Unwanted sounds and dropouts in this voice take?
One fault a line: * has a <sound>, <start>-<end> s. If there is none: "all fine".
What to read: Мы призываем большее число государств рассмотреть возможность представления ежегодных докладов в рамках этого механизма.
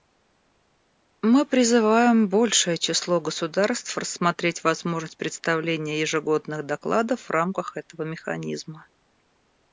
all fine